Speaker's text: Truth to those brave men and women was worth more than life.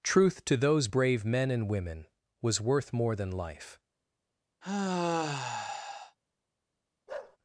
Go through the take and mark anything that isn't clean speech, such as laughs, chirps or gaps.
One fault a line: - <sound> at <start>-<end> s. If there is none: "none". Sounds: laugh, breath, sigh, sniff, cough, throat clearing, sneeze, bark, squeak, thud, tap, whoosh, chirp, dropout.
- sigh at 4.6-6.2 s
- bark at 7.1-7.4 s